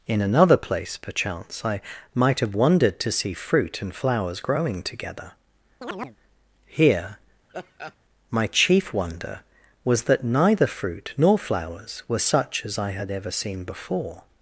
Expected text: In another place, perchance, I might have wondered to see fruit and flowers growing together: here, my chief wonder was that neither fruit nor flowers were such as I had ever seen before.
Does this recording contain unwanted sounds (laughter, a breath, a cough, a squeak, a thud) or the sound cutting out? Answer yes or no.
yes